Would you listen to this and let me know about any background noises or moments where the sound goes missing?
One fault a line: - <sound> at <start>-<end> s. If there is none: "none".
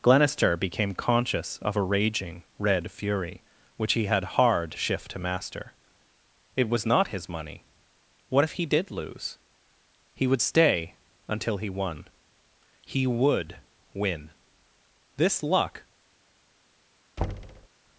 - thud at 17.2-17.7 s